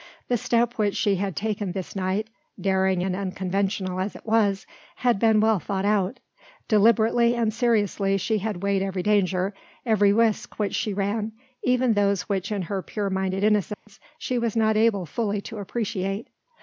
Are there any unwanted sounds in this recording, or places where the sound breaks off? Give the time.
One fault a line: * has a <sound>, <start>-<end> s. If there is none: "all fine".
* has a dropout, 13.7-13.9 s